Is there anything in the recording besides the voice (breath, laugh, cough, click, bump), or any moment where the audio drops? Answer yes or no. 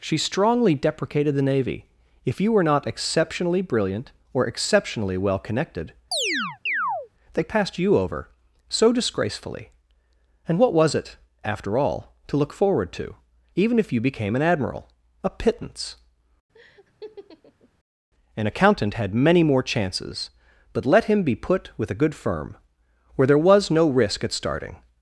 yes